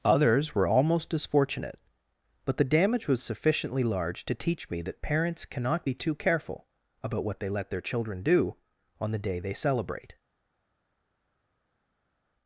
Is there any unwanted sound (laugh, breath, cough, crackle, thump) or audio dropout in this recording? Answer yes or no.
no